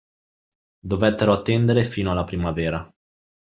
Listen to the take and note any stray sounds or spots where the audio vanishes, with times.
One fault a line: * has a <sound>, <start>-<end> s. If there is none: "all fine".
all fine